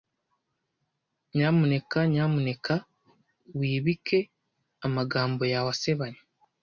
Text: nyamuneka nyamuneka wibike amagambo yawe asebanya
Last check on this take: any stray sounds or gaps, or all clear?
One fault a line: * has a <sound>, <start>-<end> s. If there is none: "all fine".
all fine